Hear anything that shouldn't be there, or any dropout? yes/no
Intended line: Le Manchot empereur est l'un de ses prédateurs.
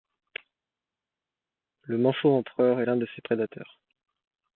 no